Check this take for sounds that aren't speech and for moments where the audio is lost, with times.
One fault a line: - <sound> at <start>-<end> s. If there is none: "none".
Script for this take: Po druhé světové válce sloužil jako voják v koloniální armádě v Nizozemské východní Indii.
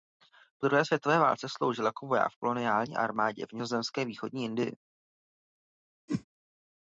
- whoosh at 6.1-6.2 s